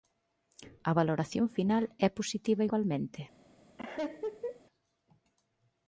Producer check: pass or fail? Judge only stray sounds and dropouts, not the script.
fail